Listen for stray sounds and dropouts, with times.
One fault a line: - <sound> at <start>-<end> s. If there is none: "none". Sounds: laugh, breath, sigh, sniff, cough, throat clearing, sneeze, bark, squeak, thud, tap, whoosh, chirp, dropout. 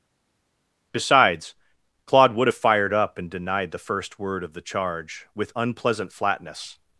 none